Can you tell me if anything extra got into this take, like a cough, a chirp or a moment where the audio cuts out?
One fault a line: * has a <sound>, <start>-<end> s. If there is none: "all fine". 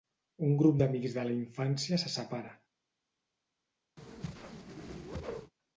* has a whoosh, 4.0-5.5 s